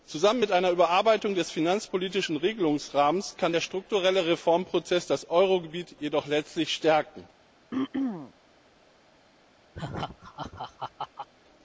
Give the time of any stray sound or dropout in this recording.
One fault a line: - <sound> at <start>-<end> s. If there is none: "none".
- throat clearing at 7.7-8.3 s
- laugh at 9.7-11.3 s